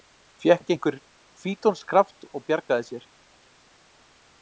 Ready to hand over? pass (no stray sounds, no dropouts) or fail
pass